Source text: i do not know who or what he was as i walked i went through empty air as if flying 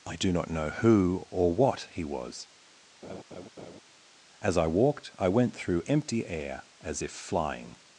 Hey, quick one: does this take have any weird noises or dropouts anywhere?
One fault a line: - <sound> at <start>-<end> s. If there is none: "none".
- laugh at 3.0-3.8 s